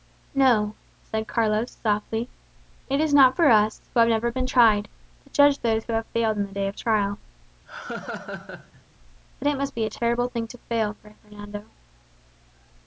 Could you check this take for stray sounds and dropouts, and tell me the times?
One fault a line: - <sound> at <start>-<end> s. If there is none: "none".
- laugh at 7.7-8.8 s